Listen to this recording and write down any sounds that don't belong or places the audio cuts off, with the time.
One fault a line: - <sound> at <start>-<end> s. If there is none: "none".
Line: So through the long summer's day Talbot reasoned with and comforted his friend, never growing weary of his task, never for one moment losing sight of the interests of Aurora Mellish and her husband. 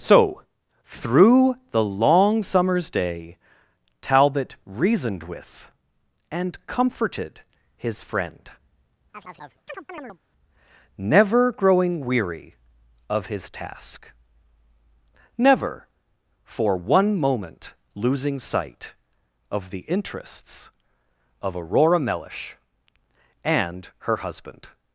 - chirp at 9.1-10.2 s